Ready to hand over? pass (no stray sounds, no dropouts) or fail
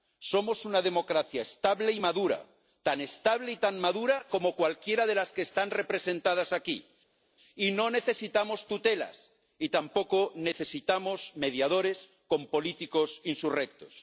pass